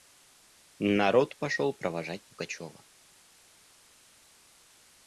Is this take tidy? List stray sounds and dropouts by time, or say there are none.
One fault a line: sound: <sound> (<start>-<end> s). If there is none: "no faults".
no faults